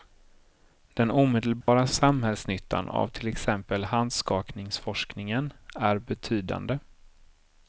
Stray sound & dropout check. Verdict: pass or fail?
fail